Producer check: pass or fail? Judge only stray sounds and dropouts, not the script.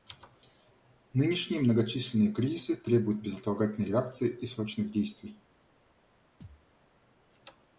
fail